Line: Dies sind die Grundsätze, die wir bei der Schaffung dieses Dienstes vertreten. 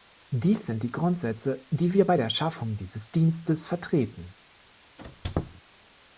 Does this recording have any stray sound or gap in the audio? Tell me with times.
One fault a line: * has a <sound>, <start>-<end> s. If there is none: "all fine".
* has a squeak, 5.0-5.6 s